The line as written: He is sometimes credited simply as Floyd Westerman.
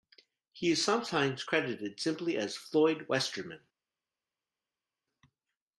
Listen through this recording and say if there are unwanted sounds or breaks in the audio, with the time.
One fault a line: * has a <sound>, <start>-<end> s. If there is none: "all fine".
all fine